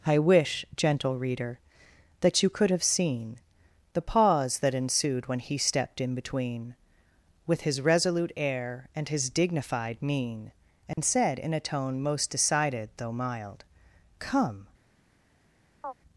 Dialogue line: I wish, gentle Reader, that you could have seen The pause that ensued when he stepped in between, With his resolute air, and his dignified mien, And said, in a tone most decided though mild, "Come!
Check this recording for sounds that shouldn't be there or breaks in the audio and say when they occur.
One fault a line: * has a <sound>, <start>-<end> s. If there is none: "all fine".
* has a dropout, 10.9-11.0 s
* has a chirp, 15.8-15.9 s